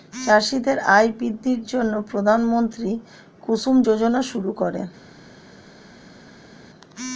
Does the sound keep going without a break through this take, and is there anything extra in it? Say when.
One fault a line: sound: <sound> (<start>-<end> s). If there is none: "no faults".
no faults